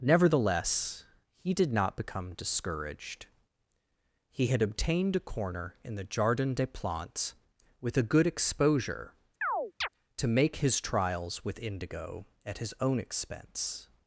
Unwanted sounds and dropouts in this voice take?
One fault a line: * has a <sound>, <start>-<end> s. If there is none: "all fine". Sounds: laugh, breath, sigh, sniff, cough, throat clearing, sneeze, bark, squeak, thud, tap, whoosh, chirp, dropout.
* has a chirp, 9.4-9.9 s